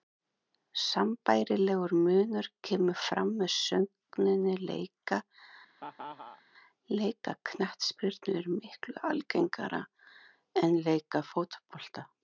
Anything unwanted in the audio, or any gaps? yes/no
yes